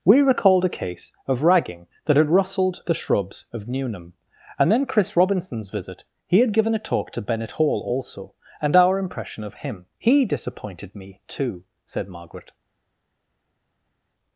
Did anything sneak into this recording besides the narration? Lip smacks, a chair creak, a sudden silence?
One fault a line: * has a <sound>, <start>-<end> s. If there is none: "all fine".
all fine